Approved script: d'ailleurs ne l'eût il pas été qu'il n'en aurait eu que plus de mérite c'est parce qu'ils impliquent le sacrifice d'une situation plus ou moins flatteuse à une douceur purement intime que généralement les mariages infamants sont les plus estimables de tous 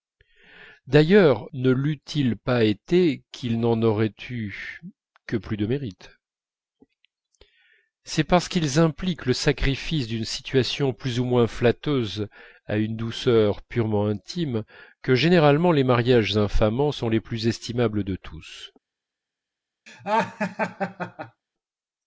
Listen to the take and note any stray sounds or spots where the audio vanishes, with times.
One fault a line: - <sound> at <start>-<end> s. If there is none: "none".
- laugh at 19.9-21.4 s